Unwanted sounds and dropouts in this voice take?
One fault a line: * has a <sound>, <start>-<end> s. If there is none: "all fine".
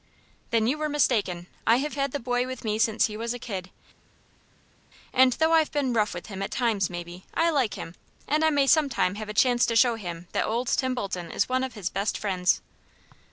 all fine